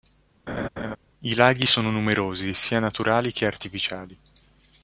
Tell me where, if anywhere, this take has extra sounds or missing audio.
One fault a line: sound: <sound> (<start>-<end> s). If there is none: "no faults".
sound: laugh (0.5-1.0 s)